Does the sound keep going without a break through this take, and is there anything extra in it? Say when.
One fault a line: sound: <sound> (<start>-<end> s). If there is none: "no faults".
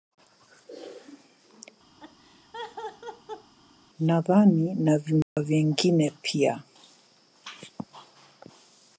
sound: laugh (2.0-3.5 s)
sound: dropout (5.2-5.4 s)